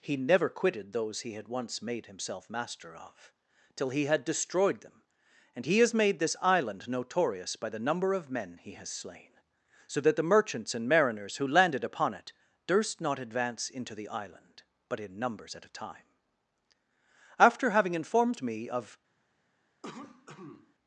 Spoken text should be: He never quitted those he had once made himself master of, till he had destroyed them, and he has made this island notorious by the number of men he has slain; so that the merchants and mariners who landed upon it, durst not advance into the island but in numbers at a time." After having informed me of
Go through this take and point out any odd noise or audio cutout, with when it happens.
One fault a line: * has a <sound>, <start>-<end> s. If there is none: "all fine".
* has a cough, 19.8-20.7 s